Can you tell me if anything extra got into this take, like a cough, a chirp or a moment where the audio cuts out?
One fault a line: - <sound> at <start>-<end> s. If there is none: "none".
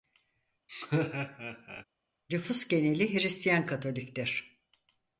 - laugh at 0.7-1.8 s